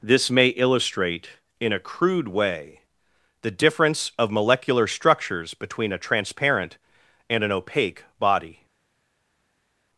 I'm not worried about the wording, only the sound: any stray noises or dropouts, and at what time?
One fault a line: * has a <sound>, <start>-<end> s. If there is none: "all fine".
all fine